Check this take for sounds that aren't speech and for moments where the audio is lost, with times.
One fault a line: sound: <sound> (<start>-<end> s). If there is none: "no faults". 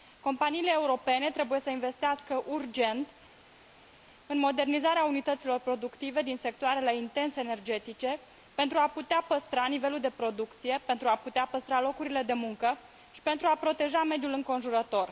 no faults